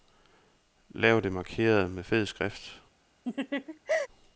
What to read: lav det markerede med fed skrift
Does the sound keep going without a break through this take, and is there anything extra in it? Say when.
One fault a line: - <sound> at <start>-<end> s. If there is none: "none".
- laugh at 3.2-4.1 s